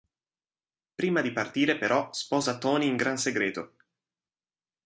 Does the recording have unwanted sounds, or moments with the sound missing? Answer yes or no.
no